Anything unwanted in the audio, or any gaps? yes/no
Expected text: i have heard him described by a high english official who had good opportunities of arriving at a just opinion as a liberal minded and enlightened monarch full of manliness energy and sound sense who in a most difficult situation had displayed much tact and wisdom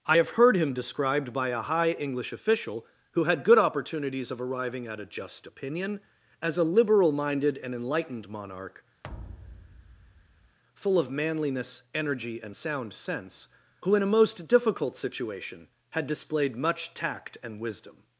yes